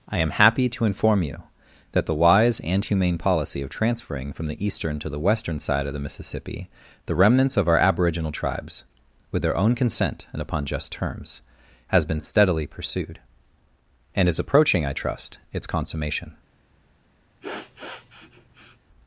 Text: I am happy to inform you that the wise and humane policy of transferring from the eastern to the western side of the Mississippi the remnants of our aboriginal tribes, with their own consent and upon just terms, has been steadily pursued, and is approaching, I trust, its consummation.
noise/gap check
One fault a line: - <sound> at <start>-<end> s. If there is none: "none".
- sniff at 17.4-18.8 s